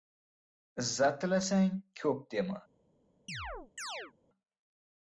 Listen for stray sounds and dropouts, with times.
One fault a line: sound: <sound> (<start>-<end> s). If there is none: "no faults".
sound: chirp (3.3-4.1 s)